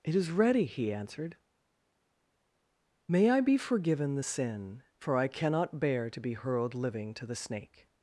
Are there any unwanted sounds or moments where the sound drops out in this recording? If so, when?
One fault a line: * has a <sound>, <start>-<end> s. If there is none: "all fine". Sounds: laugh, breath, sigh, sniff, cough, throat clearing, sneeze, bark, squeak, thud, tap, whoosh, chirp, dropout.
all fine